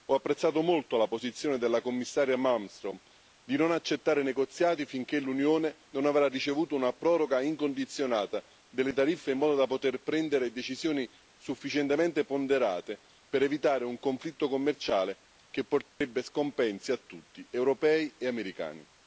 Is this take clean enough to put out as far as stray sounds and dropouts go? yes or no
no